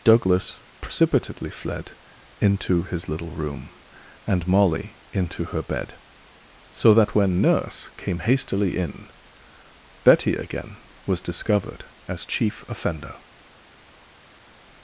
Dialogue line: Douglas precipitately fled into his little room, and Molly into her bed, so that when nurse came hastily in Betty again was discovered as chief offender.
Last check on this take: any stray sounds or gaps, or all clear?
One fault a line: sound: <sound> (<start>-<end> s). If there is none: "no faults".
no faults